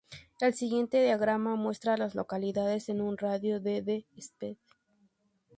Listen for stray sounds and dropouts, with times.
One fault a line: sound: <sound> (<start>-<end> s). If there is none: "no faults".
no faults